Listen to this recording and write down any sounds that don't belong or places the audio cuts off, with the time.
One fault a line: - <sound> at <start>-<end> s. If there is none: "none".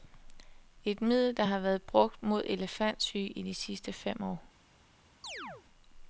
- chirp at 5.2-5.7 s